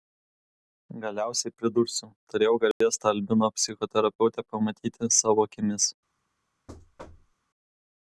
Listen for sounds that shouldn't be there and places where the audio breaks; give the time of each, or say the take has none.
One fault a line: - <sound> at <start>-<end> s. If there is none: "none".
- dropout at 2.7-2.8 s
- thud at 6.7-7.4 s